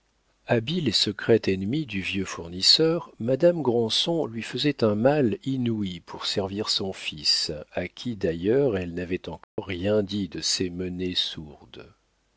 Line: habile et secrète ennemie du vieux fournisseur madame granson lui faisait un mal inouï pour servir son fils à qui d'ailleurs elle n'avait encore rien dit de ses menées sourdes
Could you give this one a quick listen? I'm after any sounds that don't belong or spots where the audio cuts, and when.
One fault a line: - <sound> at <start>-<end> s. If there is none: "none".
- dropout at 9.4-9.6 s